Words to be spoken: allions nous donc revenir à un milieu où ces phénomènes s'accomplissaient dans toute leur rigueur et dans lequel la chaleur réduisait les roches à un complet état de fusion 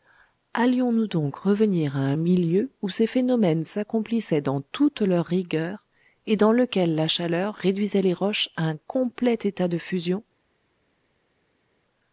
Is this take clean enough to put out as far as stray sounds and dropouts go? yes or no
yes